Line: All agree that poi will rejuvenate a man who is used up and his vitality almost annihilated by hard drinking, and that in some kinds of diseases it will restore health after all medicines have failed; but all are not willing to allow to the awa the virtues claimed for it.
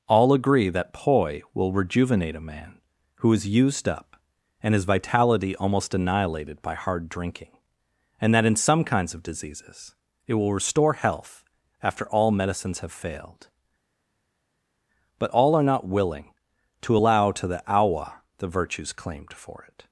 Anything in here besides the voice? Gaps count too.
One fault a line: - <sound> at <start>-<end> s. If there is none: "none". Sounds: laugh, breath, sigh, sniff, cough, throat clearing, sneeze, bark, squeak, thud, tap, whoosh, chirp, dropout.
none